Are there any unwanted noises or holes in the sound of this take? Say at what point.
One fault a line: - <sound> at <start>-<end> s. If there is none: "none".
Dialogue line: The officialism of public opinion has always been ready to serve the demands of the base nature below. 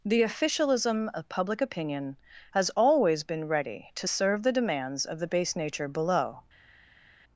none